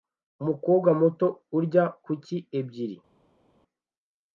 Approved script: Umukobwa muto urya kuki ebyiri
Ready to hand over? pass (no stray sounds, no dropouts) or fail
pass